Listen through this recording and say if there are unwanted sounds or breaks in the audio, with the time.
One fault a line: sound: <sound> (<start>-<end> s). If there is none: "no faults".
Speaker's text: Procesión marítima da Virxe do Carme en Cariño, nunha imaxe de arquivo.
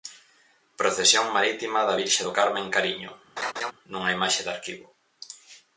sound: laugh (3.4-3.7 s)